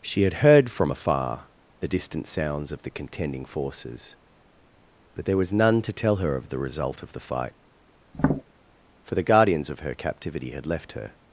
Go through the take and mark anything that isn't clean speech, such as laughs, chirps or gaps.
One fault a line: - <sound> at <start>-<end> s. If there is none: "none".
- tap at 8.1-8.4 s